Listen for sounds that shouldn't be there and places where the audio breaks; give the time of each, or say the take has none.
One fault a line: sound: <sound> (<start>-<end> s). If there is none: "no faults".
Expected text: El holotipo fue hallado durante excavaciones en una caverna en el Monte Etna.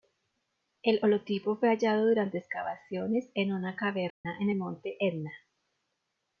sound: dropout (4.1-4.2 s)